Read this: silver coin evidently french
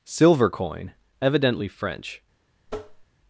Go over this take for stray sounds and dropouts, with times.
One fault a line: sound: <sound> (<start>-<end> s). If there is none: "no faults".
sound: tap (2.7-3.1 s)